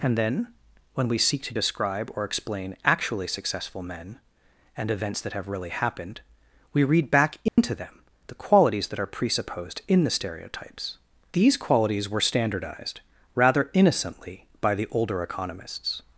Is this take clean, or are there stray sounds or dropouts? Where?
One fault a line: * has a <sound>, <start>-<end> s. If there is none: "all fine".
* has a dropout, 7.5-7.6 s